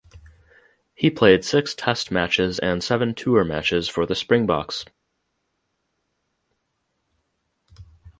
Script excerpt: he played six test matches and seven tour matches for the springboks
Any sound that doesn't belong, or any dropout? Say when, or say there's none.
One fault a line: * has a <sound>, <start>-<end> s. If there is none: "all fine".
all fine